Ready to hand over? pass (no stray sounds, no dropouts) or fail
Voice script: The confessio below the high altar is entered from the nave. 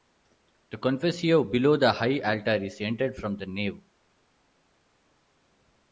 pass